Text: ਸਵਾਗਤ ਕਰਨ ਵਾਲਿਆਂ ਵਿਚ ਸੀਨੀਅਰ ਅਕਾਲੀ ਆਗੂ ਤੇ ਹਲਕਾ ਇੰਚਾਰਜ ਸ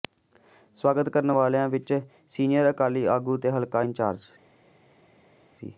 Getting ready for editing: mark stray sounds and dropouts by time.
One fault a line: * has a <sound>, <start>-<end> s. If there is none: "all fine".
all fine